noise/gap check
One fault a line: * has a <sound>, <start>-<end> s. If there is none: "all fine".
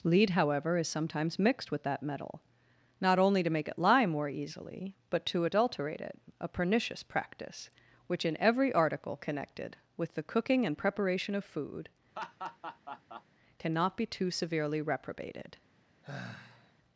* has a laugh, 12.2-13.2 s
* has a sigh, 16.0-16.7 s